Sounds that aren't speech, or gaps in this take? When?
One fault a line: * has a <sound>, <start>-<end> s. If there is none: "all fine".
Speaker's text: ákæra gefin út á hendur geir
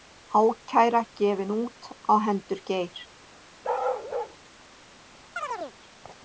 * has a bark, 3.6-4.4 s
* has a chirp, 5.4-5.8 s